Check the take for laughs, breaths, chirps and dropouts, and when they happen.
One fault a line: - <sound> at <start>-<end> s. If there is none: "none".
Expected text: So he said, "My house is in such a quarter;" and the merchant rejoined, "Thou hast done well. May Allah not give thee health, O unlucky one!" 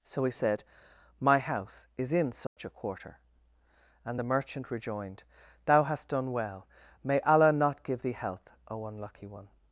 - dropout at 2.5-2.6 s